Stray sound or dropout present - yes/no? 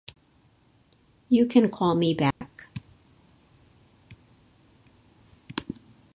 yes